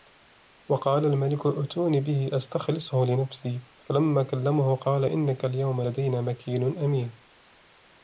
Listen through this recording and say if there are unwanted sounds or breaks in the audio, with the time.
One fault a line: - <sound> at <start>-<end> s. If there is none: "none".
none